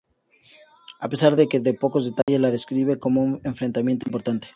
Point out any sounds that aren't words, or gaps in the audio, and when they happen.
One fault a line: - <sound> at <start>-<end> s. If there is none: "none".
- dropout at 2.2-2.3 s